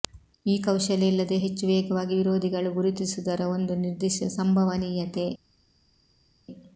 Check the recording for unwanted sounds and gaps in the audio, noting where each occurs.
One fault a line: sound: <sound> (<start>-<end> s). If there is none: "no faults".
no faults